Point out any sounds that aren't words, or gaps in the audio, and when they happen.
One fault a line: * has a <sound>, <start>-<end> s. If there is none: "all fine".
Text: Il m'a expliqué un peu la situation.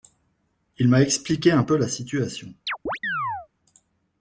* has a chirp, 2.7-3.5 s